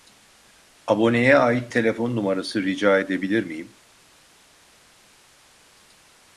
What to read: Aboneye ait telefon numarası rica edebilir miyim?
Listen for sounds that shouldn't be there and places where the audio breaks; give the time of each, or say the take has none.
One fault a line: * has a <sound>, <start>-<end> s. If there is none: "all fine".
all fine